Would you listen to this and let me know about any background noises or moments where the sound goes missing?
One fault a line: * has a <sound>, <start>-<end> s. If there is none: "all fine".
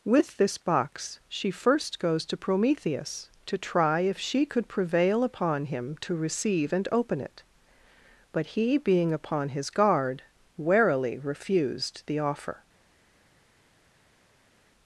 all fine